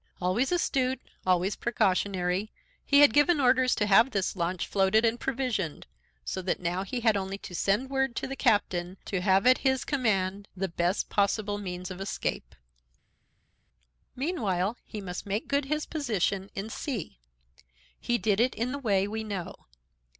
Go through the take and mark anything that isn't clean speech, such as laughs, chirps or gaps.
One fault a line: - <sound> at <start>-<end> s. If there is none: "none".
none